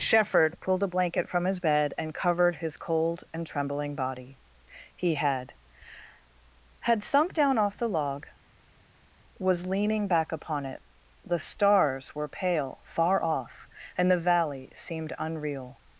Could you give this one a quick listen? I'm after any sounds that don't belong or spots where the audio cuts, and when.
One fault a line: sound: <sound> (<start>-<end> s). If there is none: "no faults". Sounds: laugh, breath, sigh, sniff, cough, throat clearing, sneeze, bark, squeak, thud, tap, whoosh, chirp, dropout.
no faults